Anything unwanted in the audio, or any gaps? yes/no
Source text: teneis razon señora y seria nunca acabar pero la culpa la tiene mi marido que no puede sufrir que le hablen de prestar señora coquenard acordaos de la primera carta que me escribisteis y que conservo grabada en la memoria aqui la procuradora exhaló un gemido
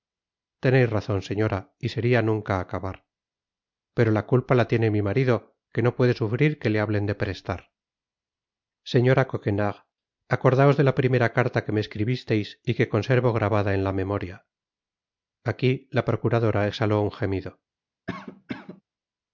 yes